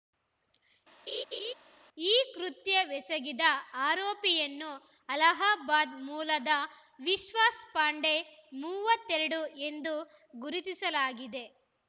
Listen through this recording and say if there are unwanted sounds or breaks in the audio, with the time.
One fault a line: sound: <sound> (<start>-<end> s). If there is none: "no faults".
sound: laugh (1.1-1.5 s)